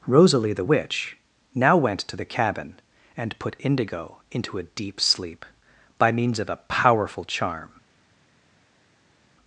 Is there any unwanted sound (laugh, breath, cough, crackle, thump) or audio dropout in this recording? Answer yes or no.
no